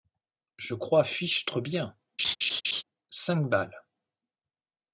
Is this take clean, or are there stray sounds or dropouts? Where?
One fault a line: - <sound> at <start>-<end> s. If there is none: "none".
- laugh at 2.2-2.8 s